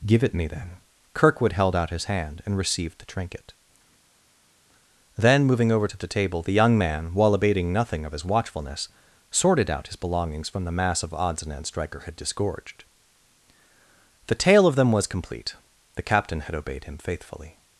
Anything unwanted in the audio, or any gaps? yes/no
no